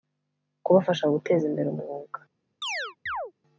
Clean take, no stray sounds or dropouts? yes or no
no